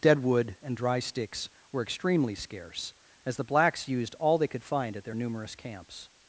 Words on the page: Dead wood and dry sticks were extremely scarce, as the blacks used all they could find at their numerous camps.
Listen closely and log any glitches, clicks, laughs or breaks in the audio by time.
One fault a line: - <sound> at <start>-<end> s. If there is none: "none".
none